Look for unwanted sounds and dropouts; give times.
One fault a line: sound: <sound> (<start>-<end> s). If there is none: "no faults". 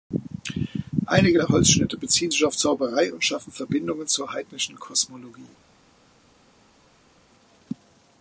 no faults